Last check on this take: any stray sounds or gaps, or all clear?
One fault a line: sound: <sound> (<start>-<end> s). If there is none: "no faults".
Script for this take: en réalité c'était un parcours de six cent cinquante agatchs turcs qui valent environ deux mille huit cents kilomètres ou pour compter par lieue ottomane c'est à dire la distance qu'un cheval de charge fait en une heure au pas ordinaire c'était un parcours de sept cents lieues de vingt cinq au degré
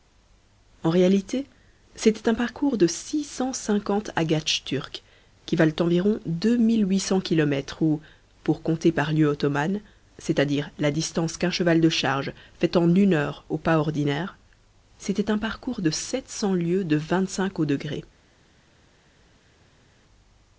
no faults